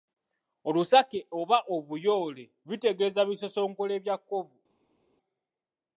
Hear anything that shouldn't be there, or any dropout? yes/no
no